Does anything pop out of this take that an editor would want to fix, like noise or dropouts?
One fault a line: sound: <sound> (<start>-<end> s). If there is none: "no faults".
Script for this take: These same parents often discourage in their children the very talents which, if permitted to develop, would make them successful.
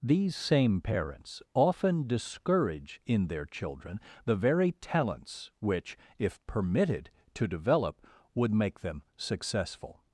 no faults